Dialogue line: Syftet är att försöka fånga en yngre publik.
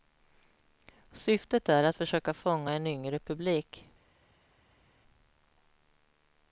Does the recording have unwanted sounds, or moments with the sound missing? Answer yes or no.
no